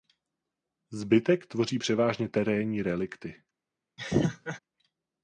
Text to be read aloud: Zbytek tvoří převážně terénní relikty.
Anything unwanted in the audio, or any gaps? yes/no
yes